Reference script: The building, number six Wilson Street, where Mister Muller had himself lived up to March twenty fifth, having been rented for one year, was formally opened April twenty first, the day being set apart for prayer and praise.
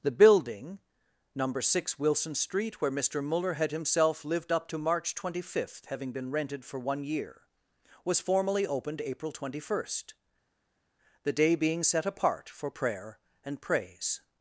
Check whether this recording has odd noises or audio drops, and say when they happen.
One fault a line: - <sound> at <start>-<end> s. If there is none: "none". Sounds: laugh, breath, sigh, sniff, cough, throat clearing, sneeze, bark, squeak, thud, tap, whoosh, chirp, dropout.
none